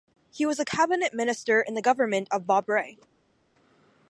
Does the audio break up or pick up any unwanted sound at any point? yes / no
no